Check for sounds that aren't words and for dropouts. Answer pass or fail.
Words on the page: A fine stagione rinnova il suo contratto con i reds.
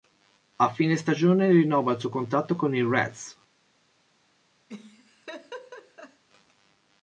fail